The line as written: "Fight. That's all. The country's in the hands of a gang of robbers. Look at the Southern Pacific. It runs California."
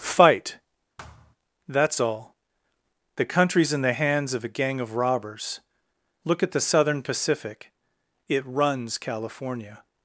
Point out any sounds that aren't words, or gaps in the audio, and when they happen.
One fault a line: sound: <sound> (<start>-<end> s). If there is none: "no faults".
sound: thud (1.0-1.4 s)